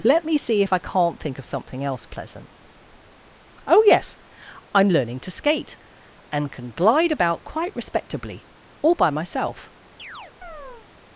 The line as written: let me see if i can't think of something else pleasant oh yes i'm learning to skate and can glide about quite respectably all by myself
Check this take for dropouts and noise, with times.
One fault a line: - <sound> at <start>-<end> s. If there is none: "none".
- chirp at 10.0-10.9 s